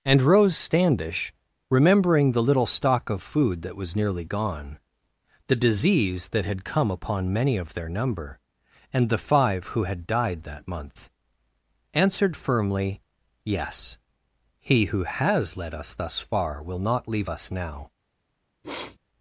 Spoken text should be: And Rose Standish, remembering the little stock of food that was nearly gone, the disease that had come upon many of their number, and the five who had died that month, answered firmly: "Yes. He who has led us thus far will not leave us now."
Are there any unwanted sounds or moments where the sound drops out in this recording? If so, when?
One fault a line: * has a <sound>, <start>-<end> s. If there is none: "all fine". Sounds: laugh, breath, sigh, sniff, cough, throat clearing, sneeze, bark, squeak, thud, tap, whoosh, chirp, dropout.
* has a sniff, 18.6-19.0 s